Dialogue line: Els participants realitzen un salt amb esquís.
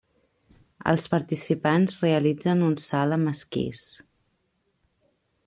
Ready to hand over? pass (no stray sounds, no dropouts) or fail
pass